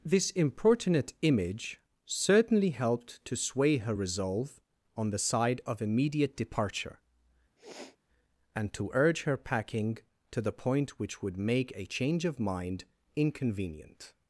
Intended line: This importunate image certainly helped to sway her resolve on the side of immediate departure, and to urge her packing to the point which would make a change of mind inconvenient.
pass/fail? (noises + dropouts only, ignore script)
fail